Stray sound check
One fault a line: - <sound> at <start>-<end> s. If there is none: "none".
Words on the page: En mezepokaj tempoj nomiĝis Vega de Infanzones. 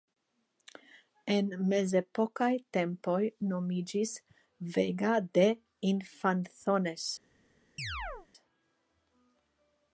- chirp at 7.8-8.3 s